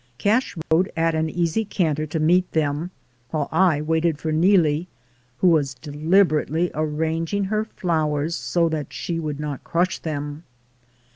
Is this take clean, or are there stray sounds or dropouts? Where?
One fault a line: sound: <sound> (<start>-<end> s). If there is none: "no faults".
sound: dropout (0.6-0.7 s)